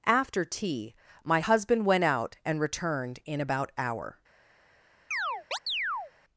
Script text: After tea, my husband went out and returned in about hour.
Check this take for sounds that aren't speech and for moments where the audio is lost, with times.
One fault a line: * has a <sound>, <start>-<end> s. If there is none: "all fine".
* has a chirp, 5.1-6.1 s